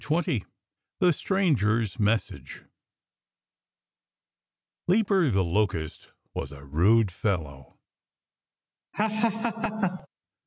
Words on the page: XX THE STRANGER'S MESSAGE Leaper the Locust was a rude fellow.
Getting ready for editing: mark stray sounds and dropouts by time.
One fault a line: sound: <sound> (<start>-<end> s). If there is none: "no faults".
sound: laugh (8.9-10.1 s)